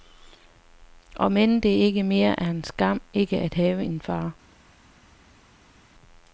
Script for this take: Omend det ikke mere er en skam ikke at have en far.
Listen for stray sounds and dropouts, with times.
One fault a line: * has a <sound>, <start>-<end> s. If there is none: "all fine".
all fine